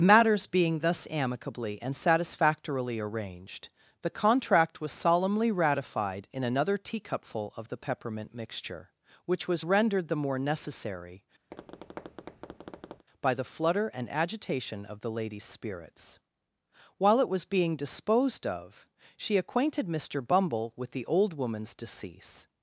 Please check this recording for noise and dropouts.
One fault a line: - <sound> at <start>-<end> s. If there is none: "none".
- tap at 11.5-13.1 s